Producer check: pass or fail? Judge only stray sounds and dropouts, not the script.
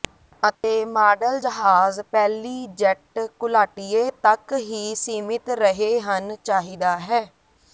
fail